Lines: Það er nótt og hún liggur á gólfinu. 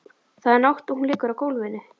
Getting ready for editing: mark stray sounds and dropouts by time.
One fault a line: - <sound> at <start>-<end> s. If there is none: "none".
none